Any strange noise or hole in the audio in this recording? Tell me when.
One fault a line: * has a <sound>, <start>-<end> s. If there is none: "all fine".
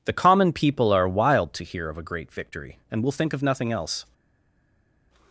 all fine